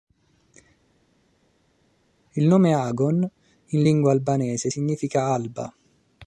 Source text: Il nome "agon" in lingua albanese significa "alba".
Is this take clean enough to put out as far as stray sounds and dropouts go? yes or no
yes